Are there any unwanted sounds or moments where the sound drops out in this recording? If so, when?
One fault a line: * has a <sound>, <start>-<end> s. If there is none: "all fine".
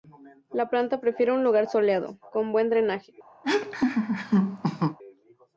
* has a laugh, 3.4-5.0 s